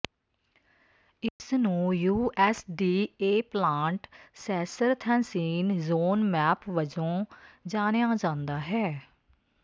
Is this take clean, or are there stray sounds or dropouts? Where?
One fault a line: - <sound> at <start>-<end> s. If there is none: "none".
- dropout at 1.3-1.4 s